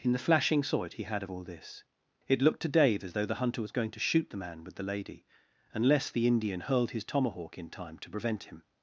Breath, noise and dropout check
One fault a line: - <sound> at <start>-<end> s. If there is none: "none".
none